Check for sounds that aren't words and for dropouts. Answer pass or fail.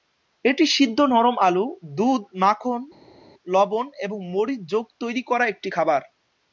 pass